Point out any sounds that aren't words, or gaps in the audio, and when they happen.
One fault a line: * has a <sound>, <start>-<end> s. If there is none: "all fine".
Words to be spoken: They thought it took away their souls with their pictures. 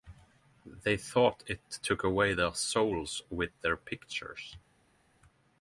all fine